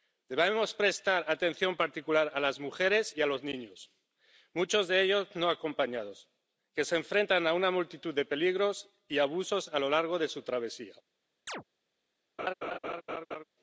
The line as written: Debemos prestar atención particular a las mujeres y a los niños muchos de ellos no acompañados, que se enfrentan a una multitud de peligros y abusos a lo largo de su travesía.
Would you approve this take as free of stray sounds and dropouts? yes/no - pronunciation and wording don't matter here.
no